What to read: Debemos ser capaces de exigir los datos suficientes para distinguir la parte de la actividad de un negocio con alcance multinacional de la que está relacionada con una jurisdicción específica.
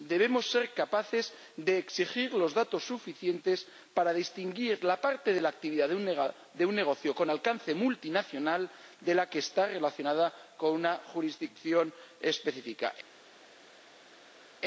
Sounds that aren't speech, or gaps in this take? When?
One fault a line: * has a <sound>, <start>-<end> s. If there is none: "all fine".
all fine